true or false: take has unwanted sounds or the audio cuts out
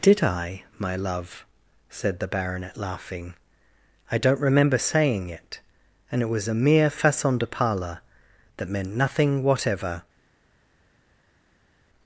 false